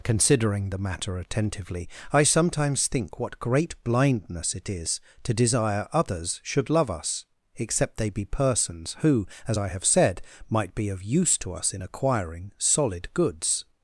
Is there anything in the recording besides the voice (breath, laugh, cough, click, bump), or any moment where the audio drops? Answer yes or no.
no